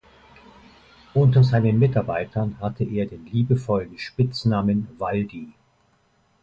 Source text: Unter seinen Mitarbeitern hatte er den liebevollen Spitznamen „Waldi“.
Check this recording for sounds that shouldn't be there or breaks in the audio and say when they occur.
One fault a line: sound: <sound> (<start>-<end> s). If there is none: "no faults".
no faults